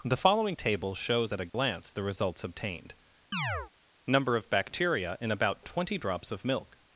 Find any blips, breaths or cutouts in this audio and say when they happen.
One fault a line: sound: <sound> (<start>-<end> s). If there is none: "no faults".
sound: dropout (1.5-1.5 s)
sound: chirp (3.3-3.7 s)